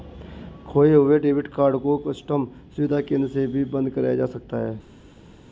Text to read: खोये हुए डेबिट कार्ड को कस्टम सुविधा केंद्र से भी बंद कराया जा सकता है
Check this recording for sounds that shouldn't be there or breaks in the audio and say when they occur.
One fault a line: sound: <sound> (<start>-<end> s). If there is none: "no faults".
no faults